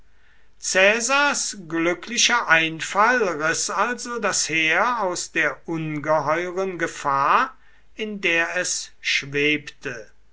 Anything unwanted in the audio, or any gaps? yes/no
no